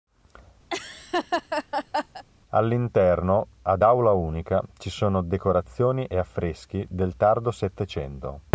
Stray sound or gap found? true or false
true